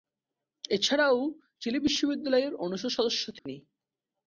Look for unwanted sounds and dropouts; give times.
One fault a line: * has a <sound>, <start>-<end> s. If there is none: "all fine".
* has a dropout, 3.4-3.5 s